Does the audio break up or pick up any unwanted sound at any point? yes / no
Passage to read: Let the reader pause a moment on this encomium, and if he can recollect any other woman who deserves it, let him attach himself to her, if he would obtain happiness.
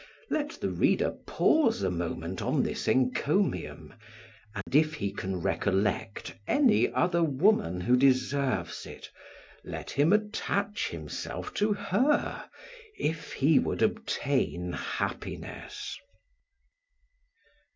yes